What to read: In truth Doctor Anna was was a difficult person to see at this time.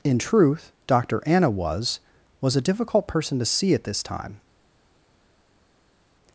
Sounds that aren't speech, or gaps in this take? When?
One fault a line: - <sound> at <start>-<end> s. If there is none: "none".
none